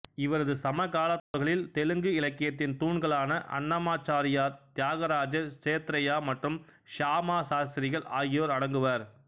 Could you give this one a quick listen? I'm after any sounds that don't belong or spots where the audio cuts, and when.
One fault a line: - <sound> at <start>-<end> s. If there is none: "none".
- dropout at 1.2-1.3 s